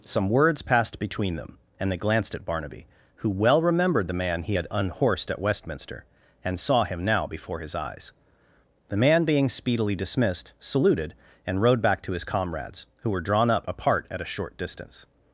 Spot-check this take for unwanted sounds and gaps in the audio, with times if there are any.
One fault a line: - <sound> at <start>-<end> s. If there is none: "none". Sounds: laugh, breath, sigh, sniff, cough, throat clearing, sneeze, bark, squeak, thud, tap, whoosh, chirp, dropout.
none